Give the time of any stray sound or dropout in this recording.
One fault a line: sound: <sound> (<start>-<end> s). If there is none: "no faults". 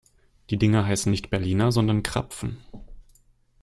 no faults